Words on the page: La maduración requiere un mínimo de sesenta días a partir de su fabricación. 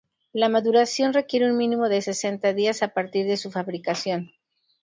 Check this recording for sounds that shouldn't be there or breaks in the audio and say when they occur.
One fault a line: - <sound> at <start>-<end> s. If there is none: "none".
none